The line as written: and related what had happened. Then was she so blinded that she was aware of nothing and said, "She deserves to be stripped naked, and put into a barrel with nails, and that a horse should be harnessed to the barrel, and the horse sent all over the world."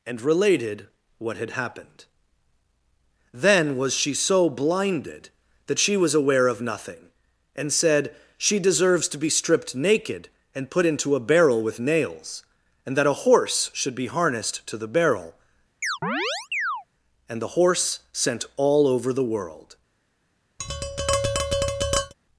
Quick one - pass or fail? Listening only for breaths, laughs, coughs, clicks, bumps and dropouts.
fail